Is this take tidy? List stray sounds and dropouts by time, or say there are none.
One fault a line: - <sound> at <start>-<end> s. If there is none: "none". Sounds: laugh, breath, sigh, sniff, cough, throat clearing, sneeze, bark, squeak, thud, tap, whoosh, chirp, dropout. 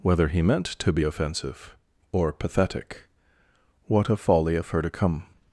none